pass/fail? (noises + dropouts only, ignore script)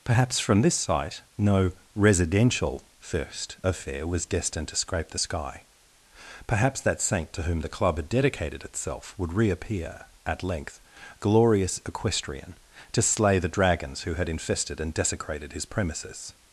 pass